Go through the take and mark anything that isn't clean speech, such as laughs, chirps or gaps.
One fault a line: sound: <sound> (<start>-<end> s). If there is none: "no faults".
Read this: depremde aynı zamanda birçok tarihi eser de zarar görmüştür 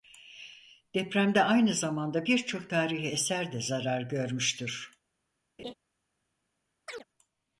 sound: laugh (5.6-5.7 s)
sound: chirp (6.9-7.0 s)